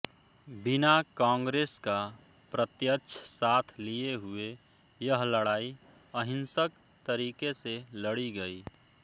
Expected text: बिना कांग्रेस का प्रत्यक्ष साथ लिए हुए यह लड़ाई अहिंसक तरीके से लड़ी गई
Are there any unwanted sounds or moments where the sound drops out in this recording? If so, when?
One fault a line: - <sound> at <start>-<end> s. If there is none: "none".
none